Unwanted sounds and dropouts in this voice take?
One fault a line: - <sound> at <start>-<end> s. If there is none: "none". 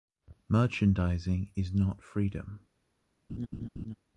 - laugh at 3.3-4.0 s